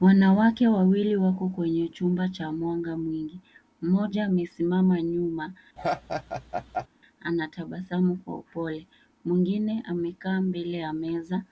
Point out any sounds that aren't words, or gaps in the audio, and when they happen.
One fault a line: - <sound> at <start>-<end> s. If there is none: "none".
- laugh at 5.8-6.9 s